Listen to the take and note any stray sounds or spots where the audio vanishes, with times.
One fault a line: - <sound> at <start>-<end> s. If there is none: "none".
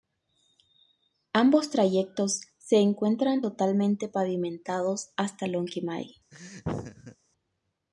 - laugh at 6.3-7.2 s